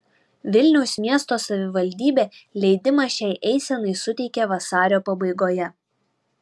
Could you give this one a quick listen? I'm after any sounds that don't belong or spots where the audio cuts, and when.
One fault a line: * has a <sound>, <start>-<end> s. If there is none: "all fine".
all fine